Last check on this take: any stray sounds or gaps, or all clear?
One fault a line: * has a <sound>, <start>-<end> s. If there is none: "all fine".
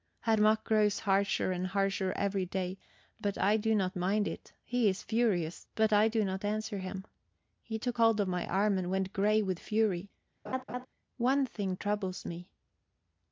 * has a laugh, 10.5-10.9 s